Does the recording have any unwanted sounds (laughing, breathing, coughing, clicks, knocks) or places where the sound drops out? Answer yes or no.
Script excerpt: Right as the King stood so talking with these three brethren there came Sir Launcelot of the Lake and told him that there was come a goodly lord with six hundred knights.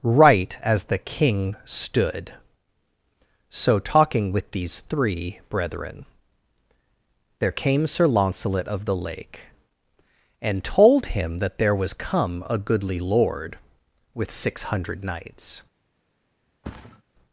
yes